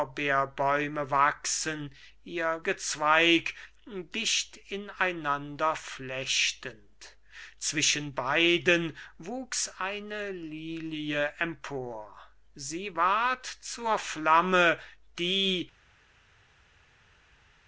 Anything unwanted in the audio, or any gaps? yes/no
no